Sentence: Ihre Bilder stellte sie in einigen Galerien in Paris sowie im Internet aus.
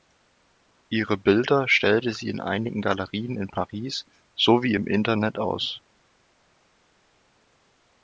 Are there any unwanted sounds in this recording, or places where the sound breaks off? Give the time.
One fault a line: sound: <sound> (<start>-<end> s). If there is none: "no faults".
no faults